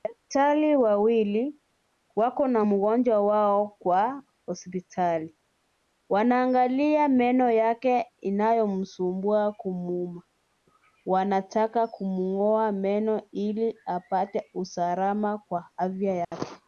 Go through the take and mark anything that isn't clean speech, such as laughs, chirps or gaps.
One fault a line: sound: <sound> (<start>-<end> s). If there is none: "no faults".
sound: dropout (16.2-16.3 s)